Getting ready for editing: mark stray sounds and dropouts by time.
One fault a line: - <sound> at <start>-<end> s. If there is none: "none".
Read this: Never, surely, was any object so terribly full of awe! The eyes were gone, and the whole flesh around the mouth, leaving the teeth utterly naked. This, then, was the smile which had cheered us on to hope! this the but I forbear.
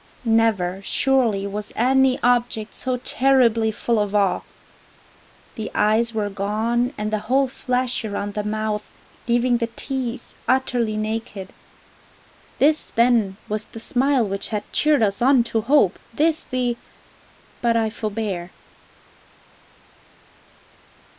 none